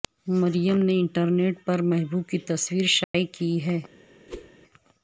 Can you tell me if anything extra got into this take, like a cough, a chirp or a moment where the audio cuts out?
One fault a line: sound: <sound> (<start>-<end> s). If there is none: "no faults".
sound: dropout (3.0-3.1 s)
sound: whoosh (4.3-4.5 s)